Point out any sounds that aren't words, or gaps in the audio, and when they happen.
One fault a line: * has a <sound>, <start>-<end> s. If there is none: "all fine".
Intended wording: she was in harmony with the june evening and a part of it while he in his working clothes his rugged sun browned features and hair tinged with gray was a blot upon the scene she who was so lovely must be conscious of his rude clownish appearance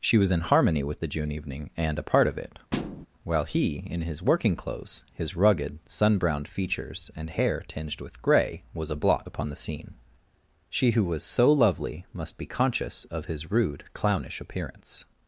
* has a thud, 2.7-3.1 s